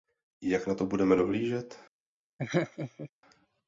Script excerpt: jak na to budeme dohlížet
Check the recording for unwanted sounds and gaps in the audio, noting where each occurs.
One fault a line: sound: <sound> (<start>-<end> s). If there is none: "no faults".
sound: laugh (2.4-3.1 s)